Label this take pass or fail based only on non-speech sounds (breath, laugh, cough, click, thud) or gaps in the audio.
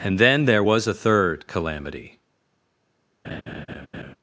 fail